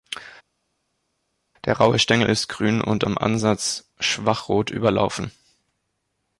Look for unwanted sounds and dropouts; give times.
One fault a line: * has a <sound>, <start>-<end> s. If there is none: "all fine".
all fine